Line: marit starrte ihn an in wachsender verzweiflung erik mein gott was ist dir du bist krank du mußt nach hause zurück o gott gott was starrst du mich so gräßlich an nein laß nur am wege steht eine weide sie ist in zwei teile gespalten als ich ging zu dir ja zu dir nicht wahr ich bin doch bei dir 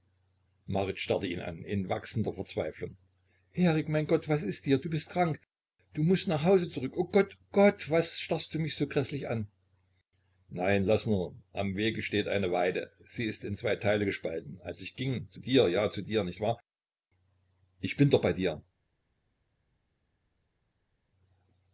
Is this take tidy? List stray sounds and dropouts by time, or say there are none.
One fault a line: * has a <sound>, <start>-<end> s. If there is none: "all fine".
all fine